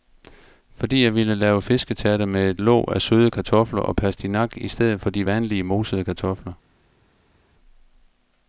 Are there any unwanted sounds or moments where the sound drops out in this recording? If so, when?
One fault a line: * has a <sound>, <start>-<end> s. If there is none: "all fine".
all fine